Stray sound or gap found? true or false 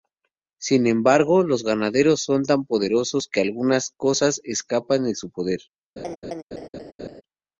true